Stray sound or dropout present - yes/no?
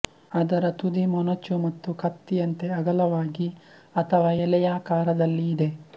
no